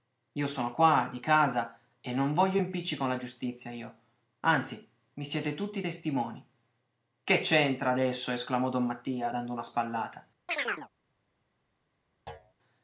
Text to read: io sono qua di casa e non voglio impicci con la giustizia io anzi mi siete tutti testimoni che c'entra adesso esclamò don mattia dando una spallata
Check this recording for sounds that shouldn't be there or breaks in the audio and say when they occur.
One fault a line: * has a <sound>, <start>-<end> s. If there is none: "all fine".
* has a chirp, 10.5-10.9 s
* has a thud, 12.3-12.5 s